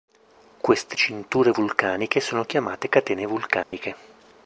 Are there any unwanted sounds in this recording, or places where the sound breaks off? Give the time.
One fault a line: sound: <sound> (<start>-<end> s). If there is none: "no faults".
sound: dropout (3.6-3.7 s)